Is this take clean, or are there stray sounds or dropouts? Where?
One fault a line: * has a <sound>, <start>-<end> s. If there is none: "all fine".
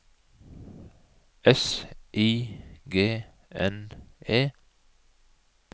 all fine